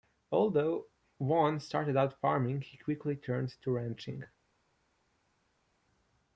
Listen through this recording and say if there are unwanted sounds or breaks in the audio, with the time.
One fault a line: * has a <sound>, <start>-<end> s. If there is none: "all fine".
all fine